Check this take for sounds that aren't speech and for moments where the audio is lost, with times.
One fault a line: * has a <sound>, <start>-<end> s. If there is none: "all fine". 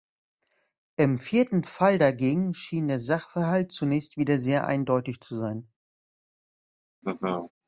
* has a laugh, 7.0-7.5 s